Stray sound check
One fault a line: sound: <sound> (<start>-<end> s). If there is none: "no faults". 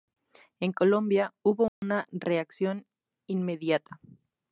sound: dropout (1.7-1.8 s)